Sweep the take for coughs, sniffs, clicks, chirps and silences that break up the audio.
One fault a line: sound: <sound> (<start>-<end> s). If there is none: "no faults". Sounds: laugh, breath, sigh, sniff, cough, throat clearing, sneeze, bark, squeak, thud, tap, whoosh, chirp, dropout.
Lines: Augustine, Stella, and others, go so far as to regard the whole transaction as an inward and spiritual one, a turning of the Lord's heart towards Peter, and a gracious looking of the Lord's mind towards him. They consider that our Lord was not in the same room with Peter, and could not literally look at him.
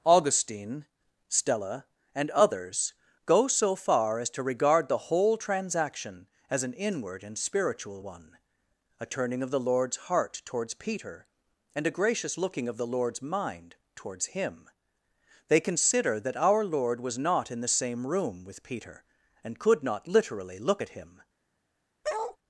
sound: bark (22.0-22.4 s)